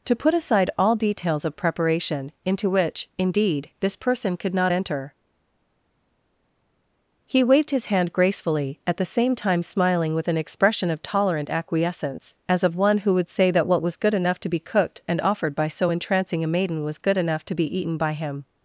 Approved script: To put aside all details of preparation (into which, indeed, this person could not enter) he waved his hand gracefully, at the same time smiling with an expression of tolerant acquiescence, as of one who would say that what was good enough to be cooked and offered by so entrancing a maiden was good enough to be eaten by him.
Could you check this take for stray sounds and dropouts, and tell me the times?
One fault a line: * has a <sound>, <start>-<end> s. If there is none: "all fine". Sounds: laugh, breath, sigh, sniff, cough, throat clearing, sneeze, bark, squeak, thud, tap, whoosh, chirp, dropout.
all fine